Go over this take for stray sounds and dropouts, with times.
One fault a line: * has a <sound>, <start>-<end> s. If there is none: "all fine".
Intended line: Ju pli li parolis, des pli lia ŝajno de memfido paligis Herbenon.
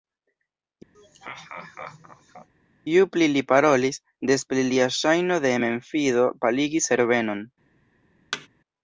* has a laugh, 0.9-2.5 s
* has a thud, 8.3-8.5 s